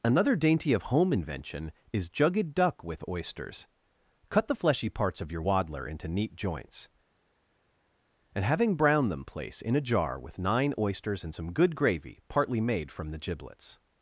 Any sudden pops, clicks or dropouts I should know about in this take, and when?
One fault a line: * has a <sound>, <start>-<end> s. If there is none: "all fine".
all fine